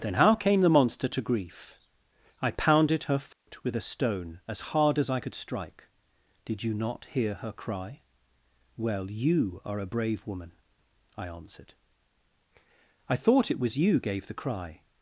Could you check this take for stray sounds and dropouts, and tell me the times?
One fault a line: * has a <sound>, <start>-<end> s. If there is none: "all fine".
* has a dropout, 3.3-3.5 s